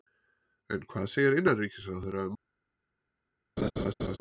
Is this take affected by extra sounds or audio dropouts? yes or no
yes